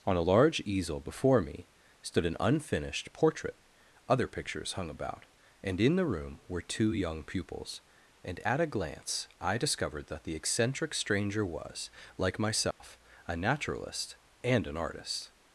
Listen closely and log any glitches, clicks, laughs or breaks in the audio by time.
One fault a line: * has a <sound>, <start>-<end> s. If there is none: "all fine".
* has a dropout, 12.7-12.8 s